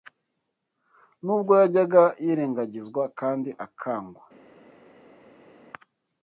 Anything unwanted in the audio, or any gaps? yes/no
no